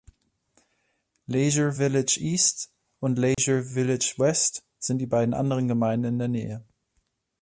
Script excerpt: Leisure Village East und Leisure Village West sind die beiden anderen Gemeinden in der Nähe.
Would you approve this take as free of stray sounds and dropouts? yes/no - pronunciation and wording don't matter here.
no